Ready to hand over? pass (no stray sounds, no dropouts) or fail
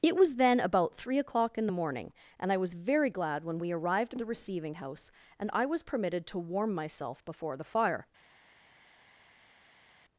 pass